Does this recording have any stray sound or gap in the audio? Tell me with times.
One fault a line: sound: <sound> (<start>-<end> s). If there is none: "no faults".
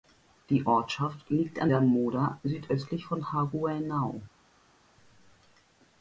no faults